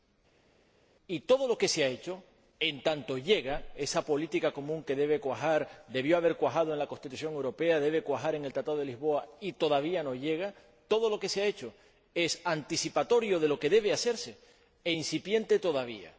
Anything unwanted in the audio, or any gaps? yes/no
no